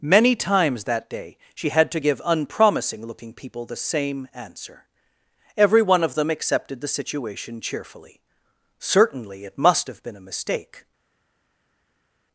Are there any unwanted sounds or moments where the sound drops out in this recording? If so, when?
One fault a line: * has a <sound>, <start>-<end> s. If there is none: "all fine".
all fine